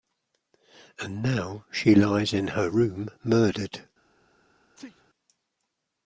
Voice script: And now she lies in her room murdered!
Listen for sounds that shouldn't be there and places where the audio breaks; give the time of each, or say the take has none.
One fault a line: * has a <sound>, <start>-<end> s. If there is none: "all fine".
* has a sneeze, 4.7-5.1 s